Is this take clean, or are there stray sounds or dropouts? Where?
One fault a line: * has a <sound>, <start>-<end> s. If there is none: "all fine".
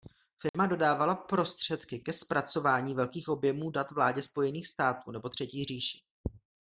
* has a dropout, 0.5-0.5 s